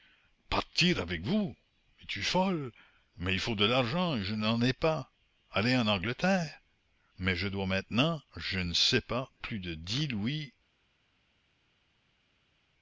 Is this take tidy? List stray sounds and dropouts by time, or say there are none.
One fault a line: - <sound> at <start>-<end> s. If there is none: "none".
none